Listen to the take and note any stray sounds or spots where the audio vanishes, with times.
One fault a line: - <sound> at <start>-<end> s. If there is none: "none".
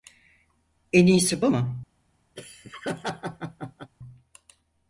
- laugh at 2.4-3.9 s